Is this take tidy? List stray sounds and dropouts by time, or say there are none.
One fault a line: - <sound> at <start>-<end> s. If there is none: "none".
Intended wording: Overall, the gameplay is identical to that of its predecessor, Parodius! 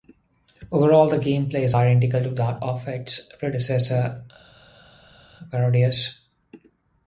none